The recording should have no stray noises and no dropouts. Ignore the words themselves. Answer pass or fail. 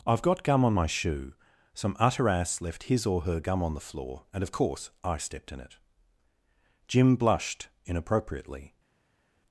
pass